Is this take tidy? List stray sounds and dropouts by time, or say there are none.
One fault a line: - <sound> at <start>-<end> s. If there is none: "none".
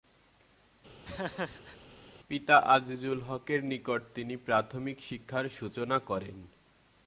- laugh at 1.0-1.8 s